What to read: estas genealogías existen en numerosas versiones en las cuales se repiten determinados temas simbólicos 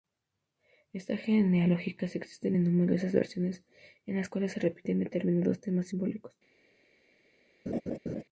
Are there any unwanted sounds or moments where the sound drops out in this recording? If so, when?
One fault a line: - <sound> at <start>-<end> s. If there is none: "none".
- laugh at 7.7-8.2 s